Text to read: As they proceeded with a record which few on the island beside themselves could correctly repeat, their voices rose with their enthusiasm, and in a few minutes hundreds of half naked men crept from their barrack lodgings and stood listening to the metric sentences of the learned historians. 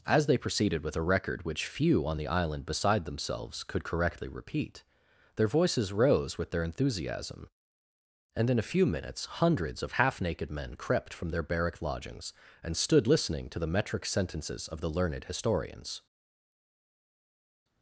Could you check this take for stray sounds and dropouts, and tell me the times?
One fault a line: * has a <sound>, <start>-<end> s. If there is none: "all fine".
all fine